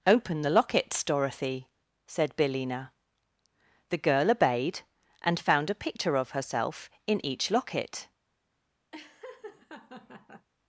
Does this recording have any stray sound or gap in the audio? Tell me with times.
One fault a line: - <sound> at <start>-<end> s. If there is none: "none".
- laugh at 8.9-10.5 s